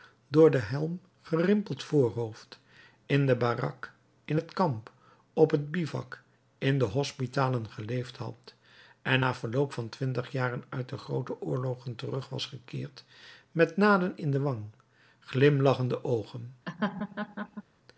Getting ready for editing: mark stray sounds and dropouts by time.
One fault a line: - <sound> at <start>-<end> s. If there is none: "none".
- laugh at 16.7-17.6 s